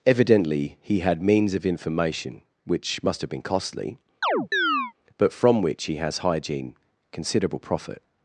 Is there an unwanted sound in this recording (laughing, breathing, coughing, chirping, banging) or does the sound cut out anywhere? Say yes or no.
yes